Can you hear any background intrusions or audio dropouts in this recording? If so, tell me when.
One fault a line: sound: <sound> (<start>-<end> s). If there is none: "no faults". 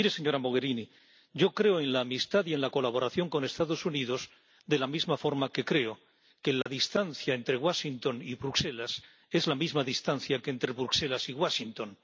sound: dropout (6.6-6.7 s)